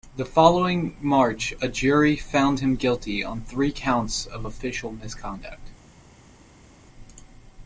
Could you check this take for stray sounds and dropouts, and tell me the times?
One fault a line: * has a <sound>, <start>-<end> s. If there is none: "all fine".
all fine